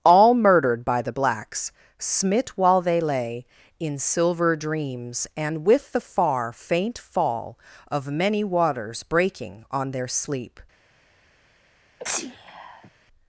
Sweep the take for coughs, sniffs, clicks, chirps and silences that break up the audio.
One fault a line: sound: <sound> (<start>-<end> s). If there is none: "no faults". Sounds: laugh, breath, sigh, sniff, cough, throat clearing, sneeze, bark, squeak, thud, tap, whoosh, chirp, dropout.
sound: sneeze (12.0-12.9 s)